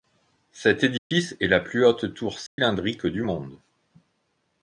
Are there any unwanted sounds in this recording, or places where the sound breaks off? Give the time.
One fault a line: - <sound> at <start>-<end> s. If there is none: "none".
- dropout at 1.0-1.1 s
- dropout at 2.5-2.6 s